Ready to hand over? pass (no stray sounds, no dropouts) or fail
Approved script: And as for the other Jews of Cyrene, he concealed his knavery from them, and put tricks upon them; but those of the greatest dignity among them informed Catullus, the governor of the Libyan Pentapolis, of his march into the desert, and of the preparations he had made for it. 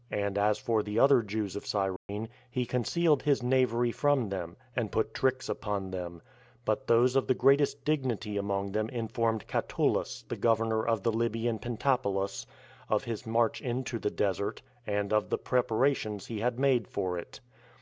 fail